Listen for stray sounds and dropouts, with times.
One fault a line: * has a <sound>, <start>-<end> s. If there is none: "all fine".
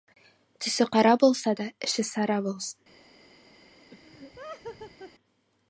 * has a laugh, 3.9-5.1 s